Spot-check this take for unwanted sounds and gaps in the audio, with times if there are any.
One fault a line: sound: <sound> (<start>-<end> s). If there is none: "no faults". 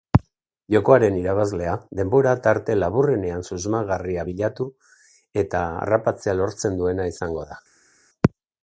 no faults